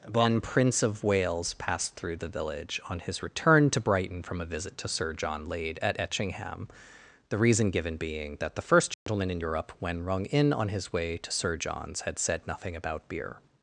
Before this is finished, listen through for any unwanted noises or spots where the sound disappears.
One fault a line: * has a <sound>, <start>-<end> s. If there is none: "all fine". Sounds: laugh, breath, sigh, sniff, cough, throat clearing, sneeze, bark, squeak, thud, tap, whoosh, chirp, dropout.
* has a dropout, 8.9-9.1 s